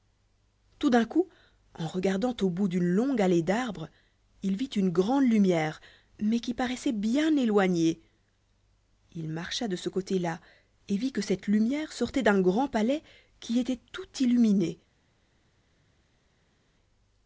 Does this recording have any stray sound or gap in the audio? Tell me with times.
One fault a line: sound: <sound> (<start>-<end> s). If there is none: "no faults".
no faults